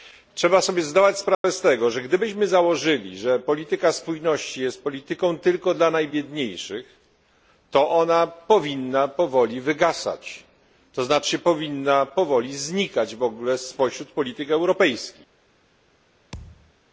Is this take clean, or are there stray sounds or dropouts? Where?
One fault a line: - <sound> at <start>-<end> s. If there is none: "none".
- dropout at 1.3-1.4 s
- thud at 16.3-16.7 s